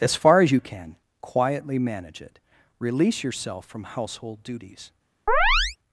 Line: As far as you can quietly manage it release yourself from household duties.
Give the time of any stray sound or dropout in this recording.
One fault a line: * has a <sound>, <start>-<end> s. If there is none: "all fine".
* has a chirp, 5.3-5.8 s